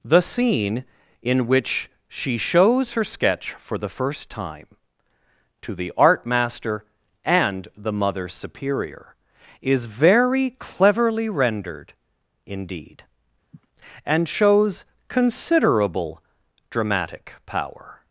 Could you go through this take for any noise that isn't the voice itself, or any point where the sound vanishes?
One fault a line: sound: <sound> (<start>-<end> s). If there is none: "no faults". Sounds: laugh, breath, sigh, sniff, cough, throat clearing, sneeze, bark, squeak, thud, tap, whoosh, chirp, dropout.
sound: sniff (13.5-13.7 s)